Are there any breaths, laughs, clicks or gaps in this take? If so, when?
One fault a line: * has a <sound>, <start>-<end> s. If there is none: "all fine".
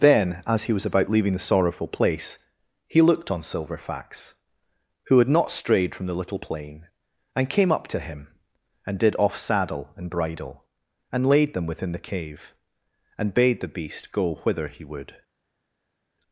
all fine